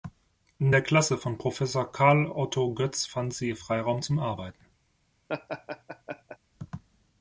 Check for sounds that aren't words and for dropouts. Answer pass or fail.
fail